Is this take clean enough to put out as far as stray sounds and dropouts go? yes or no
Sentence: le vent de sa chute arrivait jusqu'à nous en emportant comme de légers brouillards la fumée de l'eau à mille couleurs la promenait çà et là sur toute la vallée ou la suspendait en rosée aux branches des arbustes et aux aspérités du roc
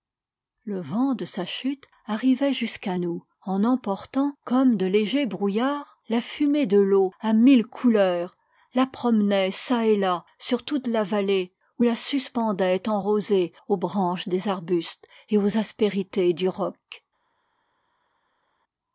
yes